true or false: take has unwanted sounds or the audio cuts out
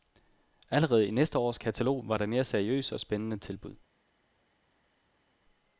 false